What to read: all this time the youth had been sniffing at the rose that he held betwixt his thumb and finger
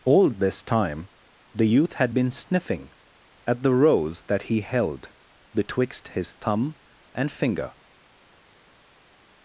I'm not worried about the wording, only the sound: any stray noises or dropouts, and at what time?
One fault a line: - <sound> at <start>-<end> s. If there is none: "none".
none